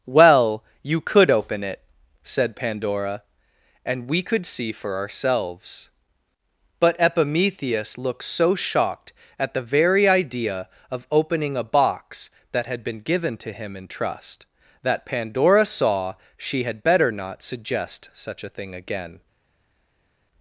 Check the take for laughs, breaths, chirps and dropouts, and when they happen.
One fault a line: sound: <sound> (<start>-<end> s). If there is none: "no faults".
no faults